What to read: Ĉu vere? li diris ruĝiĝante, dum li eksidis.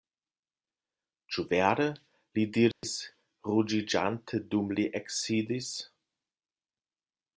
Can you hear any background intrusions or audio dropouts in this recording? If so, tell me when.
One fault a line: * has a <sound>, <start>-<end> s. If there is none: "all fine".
* has a dropout, 2.7-2.8 s